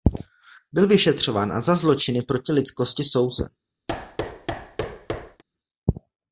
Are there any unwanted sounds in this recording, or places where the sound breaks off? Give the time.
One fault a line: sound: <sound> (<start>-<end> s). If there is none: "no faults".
sound: thud (3.9-5.4 s)